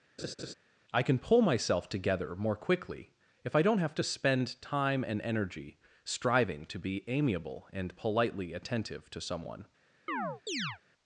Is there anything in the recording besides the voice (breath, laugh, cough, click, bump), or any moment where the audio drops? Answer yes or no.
yes